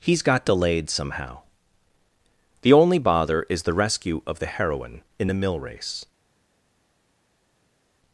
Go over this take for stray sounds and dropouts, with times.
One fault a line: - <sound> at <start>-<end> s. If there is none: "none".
none